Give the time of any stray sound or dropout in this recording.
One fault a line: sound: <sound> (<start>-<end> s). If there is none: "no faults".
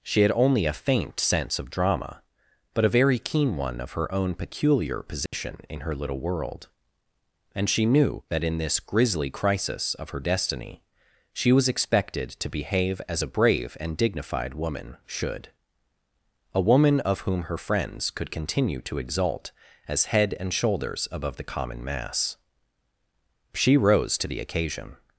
sound: dropout (5.3-5.3 s)